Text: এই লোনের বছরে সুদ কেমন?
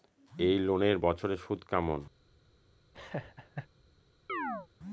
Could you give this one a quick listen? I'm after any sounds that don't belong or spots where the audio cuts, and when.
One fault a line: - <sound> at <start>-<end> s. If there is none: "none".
- laugh at 2.9-3.7 s
- chirp at 4.3-4.7 s